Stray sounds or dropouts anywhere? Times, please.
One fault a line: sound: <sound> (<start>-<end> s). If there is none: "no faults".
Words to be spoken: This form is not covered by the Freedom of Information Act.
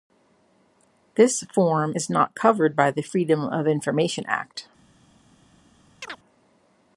sound: chirp (6.0-6.2 s)